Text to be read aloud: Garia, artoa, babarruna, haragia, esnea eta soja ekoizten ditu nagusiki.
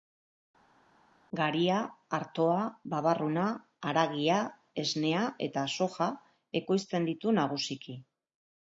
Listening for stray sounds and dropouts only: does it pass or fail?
pass